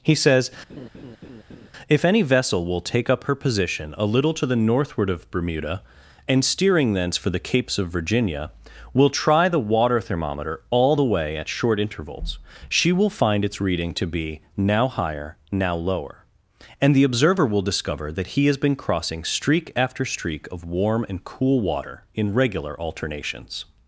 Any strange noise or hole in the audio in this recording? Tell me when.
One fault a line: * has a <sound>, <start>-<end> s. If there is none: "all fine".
* has a laugh, 0.7-1.7 s